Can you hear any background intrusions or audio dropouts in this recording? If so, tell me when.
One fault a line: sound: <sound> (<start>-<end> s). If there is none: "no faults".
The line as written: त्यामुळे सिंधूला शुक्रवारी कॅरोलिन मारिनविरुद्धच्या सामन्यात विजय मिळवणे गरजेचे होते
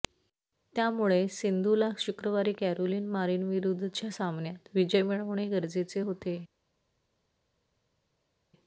no faults